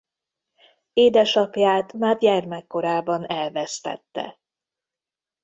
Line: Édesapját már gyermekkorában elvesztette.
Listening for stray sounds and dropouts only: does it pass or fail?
pass